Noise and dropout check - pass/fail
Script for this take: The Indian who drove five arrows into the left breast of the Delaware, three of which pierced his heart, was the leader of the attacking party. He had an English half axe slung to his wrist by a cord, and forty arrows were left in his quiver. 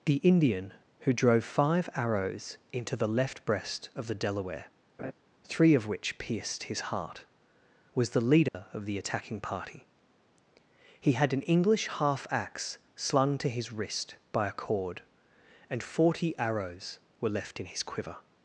fail